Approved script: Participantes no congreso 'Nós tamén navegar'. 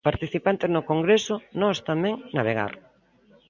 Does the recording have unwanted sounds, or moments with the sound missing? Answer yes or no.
no